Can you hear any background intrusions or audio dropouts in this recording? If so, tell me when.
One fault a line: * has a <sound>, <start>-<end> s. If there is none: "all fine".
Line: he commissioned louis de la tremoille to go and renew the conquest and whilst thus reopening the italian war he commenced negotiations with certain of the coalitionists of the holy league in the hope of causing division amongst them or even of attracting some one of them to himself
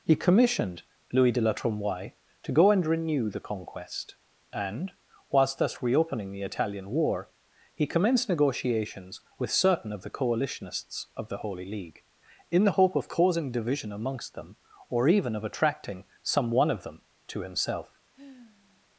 * has a sigh, 18.1-18.9 s